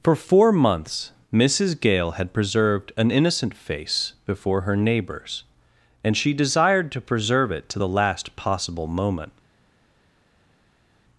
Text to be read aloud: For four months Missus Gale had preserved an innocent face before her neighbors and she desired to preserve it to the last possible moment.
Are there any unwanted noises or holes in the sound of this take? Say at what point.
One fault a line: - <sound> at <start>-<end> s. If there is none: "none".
none